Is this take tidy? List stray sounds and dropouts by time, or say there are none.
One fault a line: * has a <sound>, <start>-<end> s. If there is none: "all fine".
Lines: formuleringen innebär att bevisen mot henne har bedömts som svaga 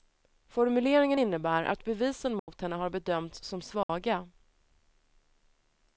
* has a dropout, 2.4-2.5 s
* has a dropout, 3.8-3.9 s